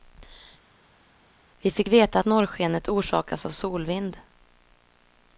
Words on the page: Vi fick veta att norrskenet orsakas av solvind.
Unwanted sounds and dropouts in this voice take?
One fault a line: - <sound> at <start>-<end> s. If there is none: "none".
none